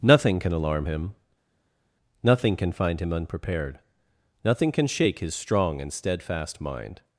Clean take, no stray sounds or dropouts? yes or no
yes